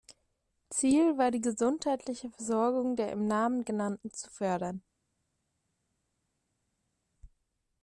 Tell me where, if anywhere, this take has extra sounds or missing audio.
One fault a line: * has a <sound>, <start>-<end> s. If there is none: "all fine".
all fine